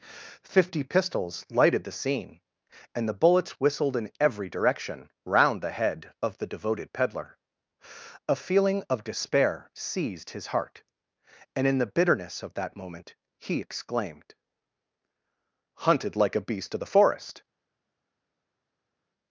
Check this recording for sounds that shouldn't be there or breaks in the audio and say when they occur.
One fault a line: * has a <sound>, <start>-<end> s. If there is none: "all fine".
all fine